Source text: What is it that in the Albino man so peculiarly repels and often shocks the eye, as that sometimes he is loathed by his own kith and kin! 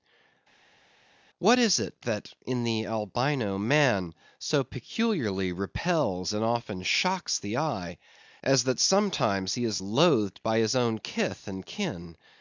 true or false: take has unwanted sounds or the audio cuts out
false